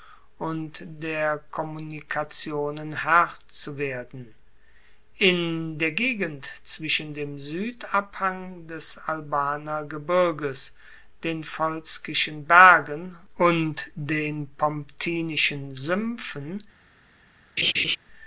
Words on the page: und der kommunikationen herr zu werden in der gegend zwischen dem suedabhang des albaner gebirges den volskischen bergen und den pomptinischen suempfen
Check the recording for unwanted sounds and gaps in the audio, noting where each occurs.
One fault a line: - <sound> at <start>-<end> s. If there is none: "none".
- laugh at 17.6-18.0 s